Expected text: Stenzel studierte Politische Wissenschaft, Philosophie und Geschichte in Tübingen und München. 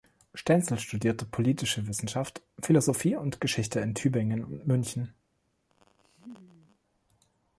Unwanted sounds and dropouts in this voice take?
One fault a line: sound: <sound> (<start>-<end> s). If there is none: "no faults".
sound: laugh (5.7-6.8 s)